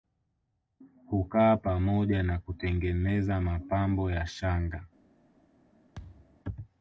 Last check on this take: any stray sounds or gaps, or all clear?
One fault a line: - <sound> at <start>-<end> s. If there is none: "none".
- thud at 6.0-6.4 s